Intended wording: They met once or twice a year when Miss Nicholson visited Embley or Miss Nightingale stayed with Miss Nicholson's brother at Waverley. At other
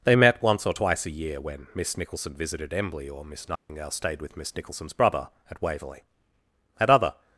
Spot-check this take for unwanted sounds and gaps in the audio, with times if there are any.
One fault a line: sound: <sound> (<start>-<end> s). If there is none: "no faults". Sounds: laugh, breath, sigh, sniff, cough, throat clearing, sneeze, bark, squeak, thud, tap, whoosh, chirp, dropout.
sound: dropout (3.6-3.7 s)